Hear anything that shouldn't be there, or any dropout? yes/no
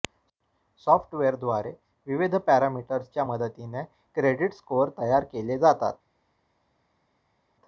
no